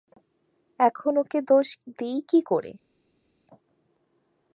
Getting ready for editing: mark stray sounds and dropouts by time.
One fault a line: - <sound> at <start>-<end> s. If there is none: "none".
none